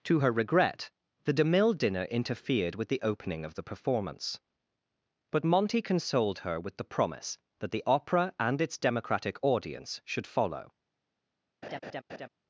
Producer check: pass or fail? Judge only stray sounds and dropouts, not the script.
fail